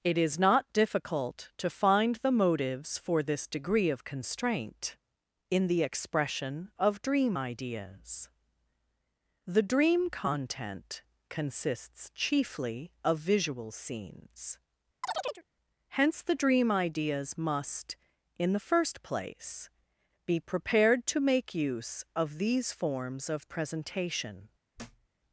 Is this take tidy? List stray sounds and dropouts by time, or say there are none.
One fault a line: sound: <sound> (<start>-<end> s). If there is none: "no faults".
sound: chirp (15.0-15.4 s)
sound: thud (24.8-25.1 s)